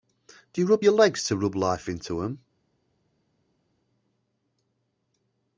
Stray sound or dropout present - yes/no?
no